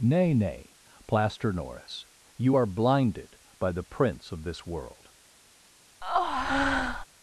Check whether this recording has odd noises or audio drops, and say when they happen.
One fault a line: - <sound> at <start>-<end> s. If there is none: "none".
- breath at 6.0-7.1 s